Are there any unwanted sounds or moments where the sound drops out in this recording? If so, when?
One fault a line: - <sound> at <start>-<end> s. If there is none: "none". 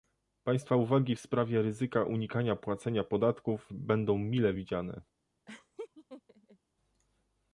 - laugh at 5.5-6.6 s